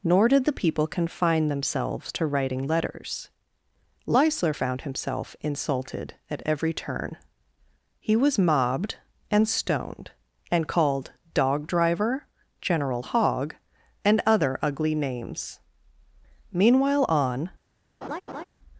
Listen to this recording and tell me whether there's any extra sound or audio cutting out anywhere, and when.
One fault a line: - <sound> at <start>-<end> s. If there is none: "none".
- laugh at 18.0-18.4 s